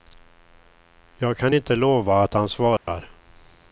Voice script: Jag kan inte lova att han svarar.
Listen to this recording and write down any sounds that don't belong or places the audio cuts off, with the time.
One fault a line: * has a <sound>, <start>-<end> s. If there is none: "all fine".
* has a dropout, 2.8-2.9 s